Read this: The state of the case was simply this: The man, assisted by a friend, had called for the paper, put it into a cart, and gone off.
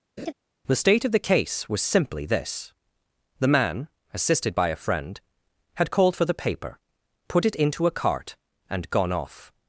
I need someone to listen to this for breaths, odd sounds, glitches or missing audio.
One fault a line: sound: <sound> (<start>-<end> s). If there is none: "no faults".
sound: laugh (0.2-0.3 s)